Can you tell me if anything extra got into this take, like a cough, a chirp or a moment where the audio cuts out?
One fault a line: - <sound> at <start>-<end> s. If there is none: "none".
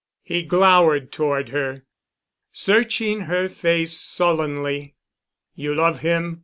none